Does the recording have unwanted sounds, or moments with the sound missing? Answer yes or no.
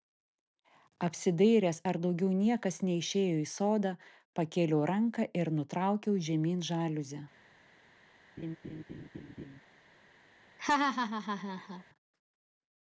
yes